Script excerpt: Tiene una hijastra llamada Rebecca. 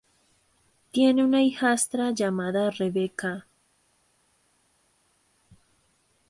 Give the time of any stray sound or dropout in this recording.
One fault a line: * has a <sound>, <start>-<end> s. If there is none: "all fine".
all fine